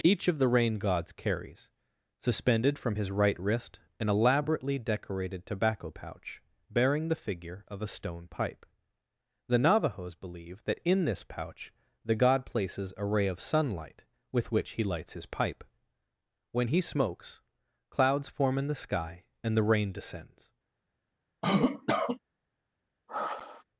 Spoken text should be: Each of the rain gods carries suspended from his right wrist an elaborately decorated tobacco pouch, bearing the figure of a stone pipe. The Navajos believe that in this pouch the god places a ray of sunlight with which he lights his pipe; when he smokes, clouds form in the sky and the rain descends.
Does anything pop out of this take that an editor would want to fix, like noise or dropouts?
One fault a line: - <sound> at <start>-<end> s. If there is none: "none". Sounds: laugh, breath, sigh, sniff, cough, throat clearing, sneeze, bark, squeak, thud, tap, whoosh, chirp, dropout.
- cough at 21.4-22.2 s
- sigh at 23.1-23.6 s